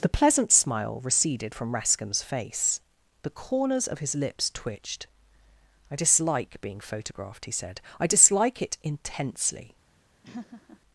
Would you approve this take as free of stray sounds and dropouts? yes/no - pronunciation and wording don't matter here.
no